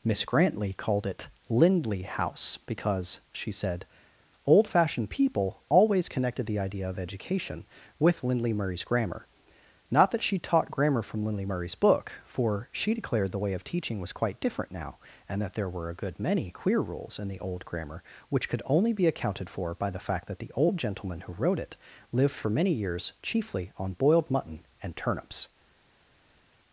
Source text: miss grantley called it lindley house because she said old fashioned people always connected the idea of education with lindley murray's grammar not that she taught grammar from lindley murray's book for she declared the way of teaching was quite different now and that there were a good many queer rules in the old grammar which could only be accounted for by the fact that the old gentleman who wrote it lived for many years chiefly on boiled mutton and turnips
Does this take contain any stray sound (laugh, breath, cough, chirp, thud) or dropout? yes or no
no